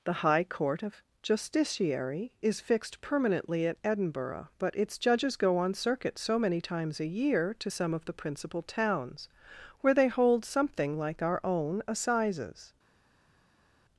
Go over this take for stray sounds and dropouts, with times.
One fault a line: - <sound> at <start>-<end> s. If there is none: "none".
none